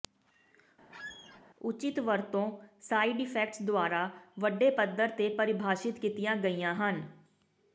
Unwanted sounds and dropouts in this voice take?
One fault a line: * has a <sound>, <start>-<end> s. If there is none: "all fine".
* has a squeak, 0.9-1.4 s